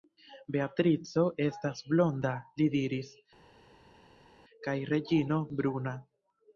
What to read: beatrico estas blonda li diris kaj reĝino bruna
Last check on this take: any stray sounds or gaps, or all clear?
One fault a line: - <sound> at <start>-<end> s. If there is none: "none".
none